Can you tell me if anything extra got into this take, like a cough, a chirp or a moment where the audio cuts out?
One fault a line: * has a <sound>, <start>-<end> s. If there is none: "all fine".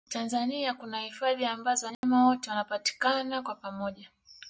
* has a dropout, 1.9-2.0 s